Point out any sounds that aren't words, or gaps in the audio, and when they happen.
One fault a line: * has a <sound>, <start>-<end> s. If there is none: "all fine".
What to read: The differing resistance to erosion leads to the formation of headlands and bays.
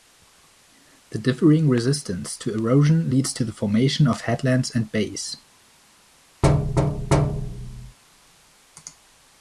* has a thud, 6.4-8.0 s